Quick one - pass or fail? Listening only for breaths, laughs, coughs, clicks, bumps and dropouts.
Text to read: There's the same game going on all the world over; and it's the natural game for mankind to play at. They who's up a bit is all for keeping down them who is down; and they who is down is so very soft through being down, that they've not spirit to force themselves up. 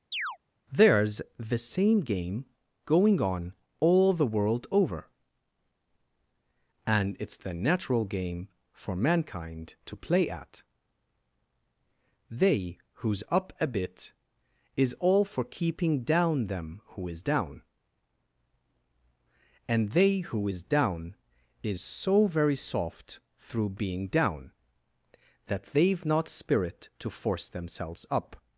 fail